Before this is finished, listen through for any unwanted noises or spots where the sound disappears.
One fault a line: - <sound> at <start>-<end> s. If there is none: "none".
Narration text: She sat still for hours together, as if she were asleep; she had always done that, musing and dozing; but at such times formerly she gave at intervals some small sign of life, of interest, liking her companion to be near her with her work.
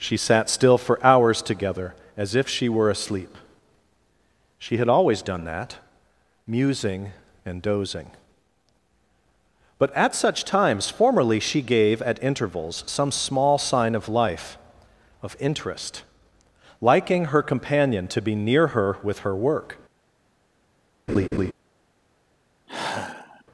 - laugh at 21.1-21.5 s
- sigh at 22.7-23.4 s